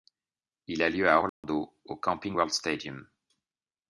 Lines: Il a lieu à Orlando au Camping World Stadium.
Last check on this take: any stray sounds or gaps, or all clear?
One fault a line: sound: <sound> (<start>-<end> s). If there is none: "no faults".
sound: dropout (1.3-1.4 s)